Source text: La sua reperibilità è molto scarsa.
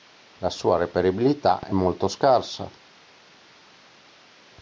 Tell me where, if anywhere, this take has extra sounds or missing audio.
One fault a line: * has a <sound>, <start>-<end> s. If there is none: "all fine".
all fine